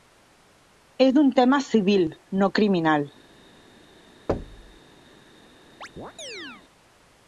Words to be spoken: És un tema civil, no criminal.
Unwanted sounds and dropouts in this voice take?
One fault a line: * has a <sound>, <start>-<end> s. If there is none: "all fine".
* has a thud, 4.3-4.8 s
* has a chirp, 5.8-6.6 s